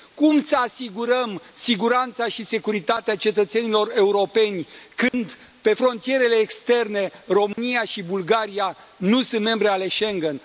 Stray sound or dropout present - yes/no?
yes